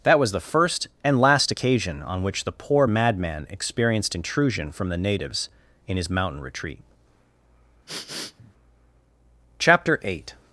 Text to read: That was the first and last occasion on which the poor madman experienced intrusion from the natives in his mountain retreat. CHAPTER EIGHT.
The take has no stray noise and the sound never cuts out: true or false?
false